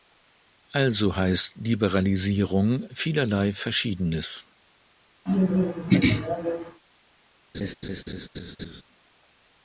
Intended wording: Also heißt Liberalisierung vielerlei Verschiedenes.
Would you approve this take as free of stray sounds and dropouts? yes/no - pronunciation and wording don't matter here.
no